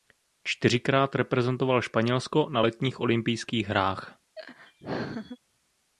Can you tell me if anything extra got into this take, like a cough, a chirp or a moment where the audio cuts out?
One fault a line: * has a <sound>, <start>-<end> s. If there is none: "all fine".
* has a laugh, 4.4-5.4 s